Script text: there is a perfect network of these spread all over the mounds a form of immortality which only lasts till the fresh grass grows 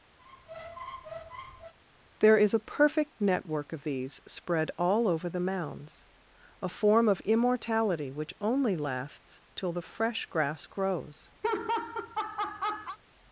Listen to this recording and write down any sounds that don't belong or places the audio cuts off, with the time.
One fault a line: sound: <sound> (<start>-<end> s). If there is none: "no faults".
sound: squeak (0.2-1.7 s)
sound: laugh (11.4-13.0 s)